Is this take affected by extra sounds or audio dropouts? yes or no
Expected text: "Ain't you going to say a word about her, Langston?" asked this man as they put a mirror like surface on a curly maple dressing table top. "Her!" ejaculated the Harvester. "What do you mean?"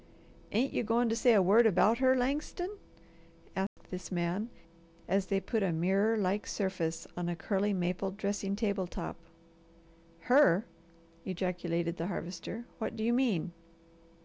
yes